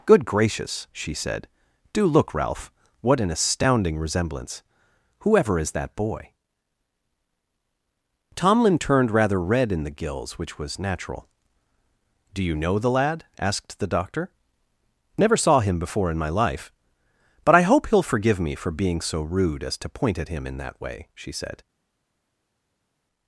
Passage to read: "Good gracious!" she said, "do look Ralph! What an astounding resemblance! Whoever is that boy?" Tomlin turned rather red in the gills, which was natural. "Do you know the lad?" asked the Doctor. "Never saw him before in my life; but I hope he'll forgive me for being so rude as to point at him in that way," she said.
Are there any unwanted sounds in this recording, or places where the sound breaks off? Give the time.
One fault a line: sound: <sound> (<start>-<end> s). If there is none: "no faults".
no faults